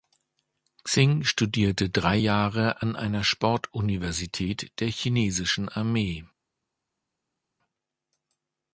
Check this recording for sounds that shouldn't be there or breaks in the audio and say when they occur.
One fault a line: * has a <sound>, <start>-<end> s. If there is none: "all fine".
all fine